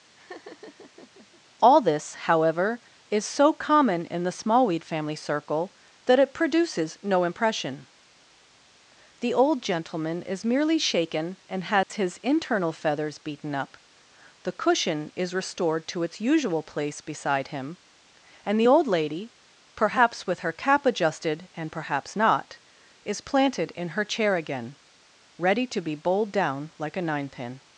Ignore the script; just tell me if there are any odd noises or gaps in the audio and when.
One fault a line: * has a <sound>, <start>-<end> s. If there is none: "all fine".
* has a laugh, 0.1-1.4 s
* has a dropout, 11.8-11.9 s